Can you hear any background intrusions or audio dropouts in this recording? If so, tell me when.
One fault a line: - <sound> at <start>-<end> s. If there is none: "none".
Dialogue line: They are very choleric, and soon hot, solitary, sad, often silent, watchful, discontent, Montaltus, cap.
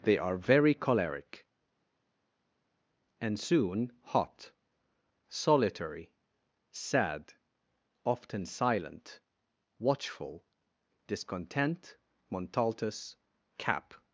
none